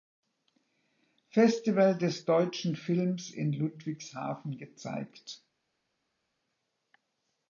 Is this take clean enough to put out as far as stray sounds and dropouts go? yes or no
yes